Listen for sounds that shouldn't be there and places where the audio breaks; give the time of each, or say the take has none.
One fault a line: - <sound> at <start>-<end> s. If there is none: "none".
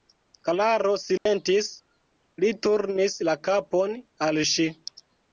- dropout at 1.2-1.3 s